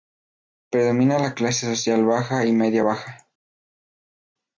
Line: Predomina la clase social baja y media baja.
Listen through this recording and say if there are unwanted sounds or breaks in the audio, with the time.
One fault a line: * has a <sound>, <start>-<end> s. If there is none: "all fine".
all fine